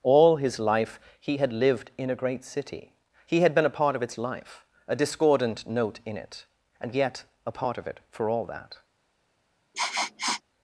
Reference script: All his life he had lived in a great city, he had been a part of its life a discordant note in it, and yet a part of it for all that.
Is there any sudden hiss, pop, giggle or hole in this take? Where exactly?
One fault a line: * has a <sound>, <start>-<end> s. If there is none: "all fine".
* has a sniff, 9.7-10.4 s